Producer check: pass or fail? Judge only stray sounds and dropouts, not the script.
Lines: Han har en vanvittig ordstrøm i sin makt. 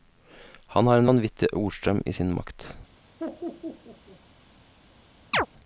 fail